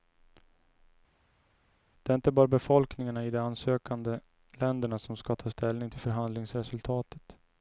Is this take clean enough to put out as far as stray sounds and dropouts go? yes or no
yes